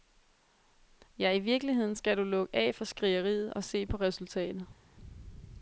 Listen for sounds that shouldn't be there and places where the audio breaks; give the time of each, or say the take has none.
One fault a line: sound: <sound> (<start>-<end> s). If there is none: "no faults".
no faults